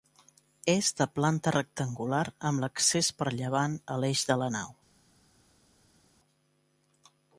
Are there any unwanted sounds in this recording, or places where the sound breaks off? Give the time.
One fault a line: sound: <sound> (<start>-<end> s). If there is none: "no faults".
no faults